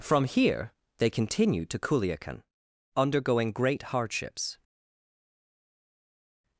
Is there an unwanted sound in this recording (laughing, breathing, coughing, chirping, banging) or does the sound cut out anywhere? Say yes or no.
no